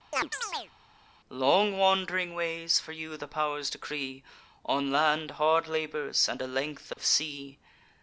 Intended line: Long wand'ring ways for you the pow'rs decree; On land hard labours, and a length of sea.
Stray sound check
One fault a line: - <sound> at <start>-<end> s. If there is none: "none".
- chirp at 0.1-0.7 s
- dropout at 6.9-7.0 s